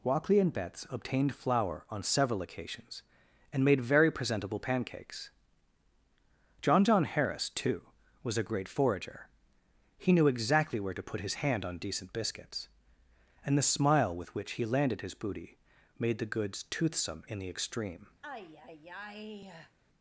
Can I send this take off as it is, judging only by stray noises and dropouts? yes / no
no